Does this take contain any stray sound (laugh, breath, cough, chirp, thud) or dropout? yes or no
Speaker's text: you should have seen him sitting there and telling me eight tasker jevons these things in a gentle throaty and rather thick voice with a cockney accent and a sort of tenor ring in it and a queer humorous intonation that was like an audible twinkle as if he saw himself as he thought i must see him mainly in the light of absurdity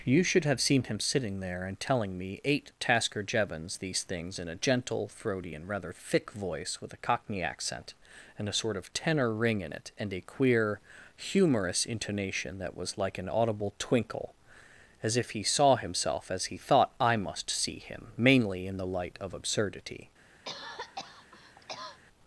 yes